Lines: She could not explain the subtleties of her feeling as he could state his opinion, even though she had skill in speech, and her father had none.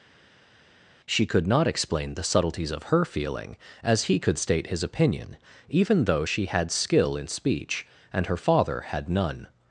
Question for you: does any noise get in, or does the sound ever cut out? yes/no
no